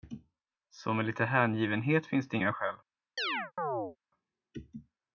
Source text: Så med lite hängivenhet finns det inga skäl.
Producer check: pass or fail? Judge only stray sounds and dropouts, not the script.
fail